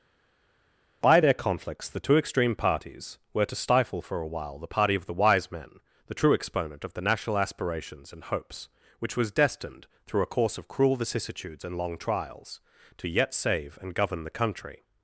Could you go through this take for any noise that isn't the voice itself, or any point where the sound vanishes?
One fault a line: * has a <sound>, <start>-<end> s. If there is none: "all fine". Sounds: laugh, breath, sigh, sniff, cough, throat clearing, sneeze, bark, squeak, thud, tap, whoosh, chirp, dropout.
all fine